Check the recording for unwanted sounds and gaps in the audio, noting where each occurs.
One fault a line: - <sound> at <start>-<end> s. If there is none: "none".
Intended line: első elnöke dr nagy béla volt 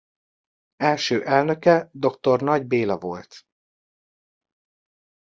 none